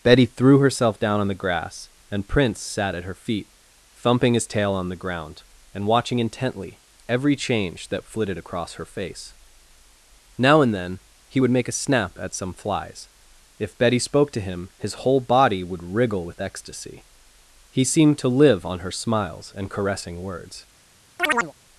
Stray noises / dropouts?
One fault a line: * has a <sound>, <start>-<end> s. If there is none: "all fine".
* has a chirp, 21.2-21.5 s